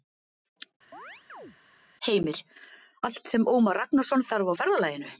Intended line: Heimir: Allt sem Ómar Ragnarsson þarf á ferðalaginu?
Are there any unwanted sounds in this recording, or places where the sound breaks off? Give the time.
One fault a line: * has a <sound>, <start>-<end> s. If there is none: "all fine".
* has a chirp, 0.9-1.6 s